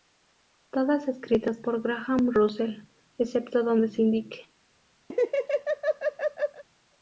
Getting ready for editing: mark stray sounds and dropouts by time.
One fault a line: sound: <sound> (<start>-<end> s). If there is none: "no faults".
sound: laugh (5.1-6.6 s)